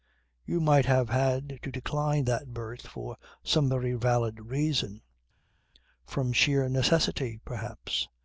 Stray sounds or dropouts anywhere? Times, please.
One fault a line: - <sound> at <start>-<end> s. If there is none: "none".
none